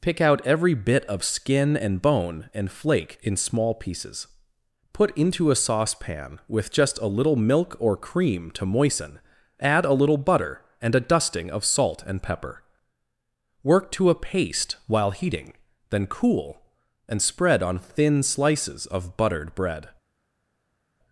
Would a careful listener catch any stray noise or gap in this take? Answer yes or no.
no